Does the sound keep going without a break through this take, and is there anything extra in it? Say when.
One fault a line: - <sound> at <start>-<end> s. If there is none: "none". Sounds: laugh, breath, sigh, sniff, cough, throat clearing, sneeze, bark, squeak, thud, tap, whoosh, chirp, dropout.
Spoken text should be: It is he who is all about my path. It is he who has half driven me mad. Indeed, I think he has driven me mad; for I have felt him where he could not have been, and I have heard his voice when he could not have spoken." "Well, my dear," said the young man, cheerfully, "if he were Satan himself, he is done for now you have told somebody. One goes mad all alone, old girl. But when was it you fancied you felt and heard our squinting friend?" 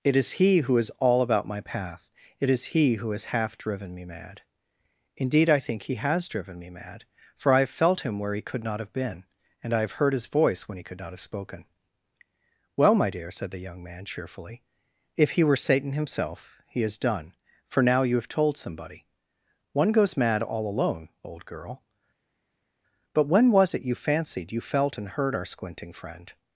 none